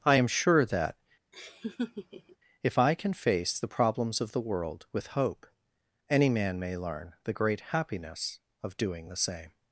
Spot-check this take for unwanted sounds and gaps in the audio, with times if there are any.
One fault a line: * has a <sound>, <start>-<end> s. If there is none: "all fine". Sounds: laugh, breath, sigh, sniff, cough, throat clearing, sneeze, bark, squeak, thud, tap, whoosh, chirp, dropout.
* has a laugh, 1.3-2.4 s